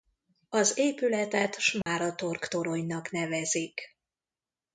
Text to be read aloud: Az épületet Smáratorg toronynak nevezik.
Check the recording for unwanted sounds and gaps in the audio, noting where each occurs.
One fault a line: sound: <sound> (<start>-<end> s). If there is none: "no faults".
sound: dropout (1.8-1.9 s)